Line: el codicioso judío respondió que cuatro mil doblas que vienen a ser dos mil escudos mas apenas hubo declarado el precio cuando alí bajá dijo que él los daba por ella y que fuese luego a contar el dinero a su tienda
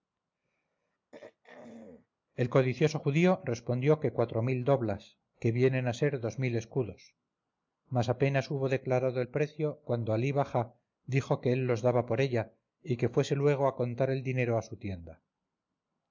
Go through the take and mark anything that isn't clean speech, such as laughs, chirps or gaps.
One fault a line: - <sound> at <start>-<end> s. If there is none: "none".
- throat clearing at 1.1-2.1 s